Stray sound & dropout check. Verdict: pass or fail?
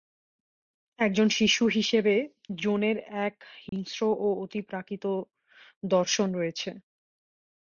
fail